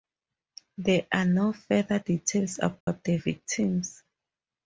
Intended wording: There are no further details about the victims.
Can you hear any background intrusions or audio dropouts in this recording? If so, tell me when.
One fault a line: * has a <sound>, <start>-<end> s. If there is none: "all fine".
* has a dropout, 2.8-2.9 s